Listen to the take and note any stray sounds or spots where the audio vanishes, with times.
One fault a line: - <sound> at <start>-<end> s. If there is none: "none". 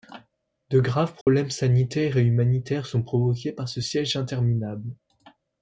- dropout at 1.2-1.3 s